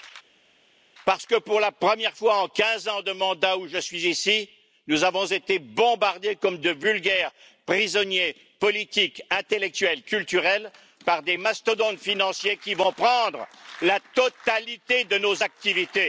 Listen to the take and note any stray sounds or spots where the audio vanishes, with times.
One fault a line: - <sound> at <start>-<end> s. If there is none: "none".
none